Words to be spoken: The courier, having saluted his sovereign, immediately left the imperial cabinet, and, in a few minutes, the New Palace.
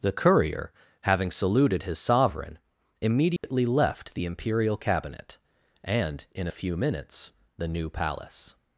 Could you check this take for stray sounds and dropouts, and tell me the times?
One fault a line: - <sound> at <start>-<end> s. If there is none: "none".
- dropout at 3.4-3.4 s